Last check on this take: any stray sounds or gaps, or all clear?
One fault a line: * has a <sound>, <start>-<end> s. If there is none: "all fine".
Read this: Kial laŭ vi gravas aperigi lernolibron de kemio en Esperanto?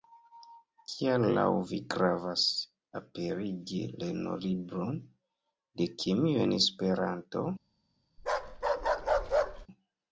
* has a bark, 8.2-9.7 s